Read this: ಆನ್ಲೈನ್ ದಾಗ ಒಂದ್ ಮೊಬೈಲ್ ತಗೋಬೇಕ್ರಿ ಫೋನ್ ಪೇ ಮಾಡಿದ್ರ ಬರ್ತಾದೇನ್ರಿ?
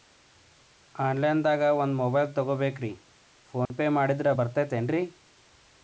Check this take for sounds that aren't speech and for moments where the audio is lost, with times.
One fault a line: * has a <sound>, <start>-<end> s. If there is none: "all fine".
* has a dropout, 3.7-3.7 s